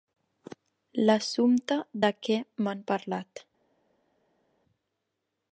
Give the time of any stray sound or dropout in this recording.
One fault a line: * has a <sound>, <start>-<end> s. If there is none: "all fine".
all fine